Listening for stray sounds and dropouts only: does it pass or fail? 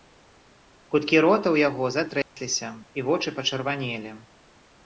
fail